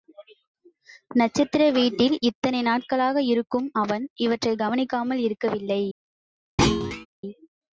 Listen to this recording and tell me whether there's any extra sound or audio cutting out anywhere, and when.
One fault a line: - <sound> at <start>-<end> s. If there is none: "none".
- thud at 6.6-7.1 s